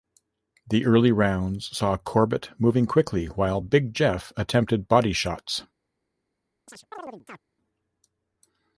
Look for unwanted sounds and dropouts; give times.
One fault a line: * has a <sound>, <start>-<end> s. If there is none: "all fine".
* has a chirp, 6.7-7.4 s